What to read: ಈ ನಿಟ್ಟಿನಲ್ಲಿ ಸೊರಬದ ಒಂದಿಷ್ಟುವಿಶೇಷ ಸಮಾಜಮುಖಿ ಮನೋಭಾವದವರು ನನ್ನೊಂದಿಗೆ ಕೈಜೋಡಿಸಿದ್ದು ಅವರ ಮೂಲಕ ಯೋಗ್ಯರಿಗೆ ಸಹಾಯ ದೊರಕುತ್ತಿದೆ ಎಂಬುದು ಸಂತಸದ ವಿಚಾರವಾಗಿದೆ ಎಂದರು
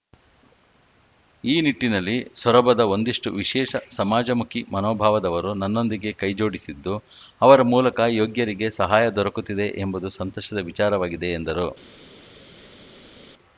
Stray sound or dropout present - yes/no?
no